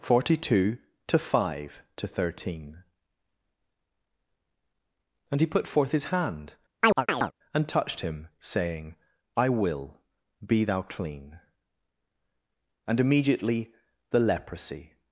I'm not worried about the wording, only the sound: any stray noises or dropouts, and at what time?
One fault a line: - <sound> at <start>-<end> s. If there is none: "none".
- chirp at 6.8-7.3 s